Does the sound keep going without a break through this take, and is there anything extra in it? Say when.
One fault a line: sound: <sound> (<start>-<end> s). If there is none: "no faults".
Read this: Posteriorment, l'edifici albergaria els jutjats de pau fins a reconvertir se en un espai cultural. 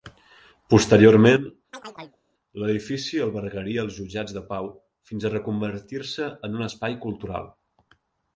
sound: chirp (1.7-2.2 s)